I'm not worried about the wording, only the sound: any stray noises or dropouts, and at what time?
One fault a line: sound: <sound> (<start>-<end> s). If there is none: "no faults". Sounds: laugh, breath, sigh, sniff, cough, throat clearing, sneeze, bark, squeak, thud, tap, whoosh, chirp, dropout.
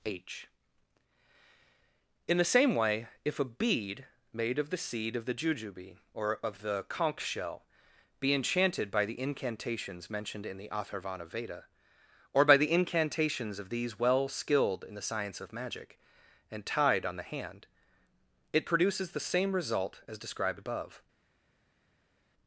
no faults